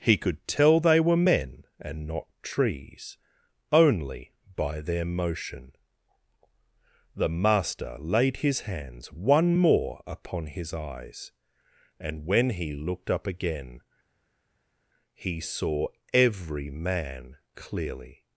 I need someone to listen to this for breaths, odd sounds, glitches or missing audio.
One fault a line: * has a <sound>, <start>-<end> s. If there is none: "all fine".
all fine